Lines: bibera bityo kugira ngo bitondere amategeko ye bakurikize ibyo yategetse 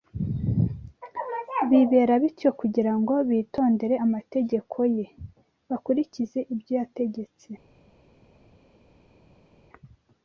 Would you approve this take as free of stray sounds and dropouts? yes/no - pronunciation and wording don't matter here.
yes